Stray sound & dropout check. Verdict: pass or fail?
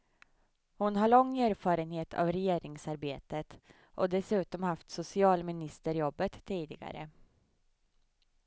pass